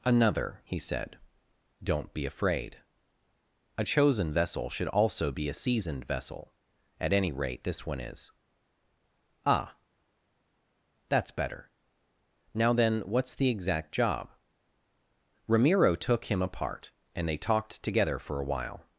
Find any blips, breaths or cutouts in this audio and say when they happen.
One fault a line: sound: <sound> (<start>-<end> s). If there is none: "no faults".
no faults